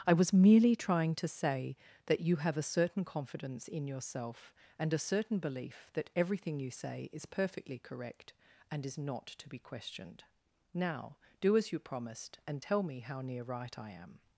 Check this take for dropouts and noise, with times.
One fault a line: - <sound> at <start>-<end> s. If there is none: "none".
none